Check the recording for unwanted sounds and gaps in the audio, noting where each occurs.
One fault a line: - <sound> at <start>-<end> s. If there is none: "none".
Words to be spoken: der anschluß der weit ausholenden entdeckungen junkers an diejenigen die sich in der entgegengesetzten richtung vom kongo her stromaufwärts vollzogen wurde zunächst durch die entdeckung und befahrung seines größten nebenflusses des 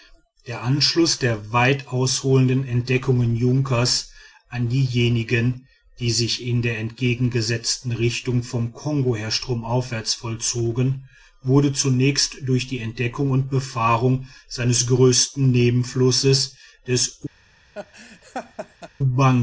- laugh at 17.7-18.9 s